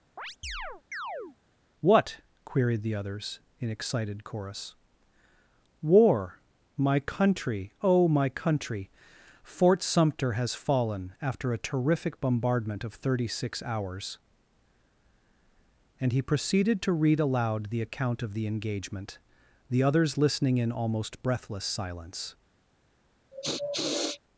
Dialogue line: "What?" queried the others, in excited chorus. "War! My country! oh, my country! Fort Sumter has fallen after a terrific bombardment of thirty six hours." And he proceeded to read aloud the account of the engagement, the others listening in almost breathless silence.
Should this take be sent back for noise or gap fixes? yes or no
yes